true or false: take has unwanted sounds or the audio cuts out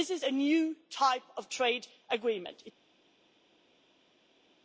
false